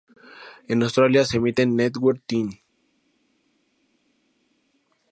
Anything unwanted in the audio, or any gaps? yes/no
no